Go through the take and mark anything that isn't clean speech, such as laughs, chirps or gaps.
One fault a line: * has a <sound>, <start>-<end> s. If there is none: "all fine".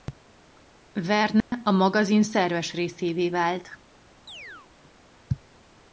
* has a dropout, 1.4-1.5 s
* has a chirp, 4.3-4.7 s